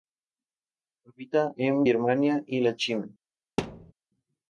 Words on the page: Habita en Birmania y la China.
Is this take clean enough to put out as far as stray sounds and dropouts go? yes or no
no